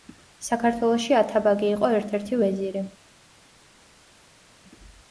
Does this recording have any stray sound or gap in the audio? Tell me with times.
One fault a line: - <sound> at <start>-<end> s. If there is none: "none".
none